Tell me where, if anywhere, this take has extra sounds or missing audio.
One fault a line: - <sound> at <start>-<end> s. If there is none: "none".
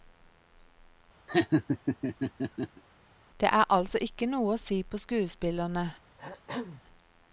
- laugh at 1.3-2.8 s
- throat clearing at 6.2-6.8 s